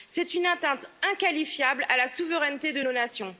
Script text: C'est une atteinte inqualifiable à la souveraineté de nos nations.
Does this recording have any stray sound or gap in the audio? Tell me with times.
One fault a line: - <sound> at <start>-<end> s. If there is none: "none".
none